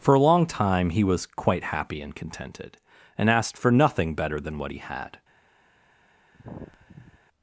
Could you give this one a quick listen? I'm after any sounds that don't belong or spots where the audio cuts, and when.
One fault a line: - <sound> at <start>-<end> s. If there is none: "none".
- sigh at 6.3-7.2 s